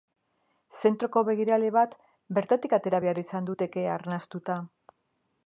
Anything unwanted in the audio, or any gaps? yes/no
no